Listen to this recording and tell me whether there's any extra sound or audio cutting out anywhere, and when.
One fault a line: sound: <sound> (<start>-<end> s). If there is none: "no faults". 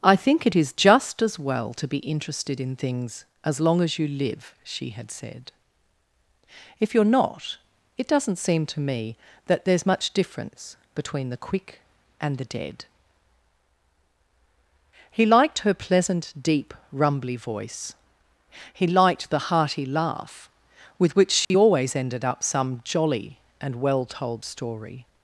sound: dropout (21.4-21.5 s)